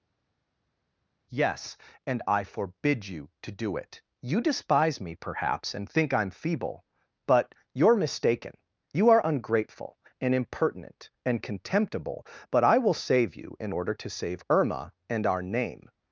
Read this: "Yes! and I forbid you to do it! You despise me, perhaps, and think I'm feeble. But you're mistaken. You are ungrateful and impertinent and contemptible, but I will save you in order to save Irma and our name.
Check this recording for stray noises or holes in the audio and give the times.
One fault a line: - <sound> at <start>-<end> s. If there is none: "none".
none